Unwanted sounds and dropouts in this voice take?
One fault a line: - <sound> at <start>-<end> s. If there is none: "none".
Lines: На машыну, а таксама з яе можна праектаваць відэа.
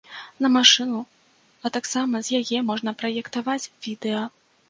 none